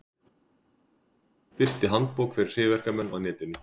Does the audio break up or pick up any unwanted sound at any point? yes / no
no